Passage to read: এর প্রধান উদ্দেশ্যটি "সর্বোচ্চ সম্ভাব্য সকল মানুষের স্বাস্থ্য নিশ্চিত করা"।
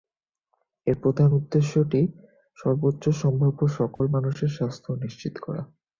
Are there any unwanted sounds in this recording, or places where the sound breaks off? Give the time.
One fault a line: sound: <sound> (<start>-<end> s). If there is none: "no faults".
sound: dropout (4.0-4.0 s)